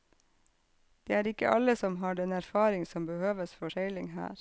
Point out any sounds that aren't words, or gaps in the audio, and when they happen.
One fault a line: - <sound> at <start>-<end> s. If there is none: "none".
none